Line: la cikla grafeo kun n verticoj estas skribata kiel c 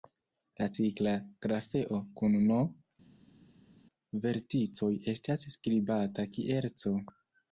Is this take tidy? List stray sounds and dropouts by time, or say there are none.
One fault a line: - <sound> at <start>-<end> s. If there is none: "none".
none